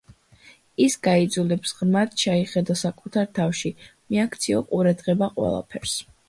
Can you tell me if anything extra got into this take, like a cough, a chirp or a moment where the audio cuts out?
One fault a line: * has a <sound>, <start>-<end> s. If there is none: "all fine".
all fine